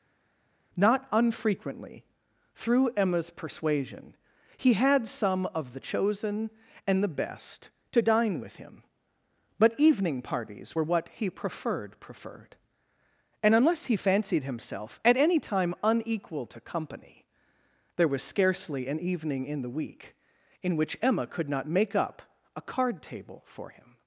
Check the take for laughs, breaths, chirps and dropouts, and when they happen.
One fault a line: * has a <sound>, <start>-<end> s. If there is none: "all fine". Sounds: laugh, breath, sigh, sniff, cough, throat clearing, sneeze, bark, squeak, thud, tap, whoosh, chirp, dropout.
all fine